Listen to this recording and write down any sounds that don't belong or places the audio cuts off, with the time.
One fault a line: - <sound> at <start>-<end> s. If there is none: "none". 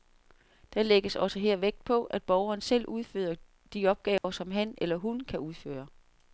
- dropout at 4.2-4.2 s